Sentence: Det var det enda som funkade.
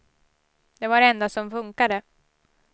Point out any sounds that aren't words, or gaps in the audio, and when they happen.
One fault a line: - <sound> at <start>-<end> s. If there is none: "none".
none